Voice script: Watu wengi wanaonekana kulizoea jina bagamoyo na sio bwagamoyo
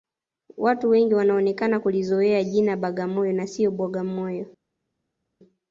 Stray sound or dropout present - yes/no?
no